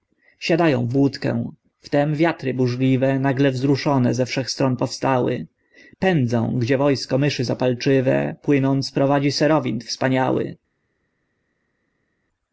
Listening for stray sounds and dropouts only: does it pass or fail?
pass